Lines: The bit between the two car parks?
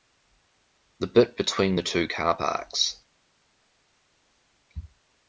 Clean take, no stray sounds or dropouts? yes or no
yes